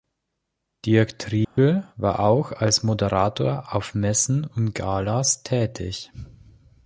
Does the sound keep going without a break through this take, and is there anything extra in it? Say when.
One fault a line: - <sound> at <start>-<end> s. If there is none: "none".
- dropout at 1.4-1.6 s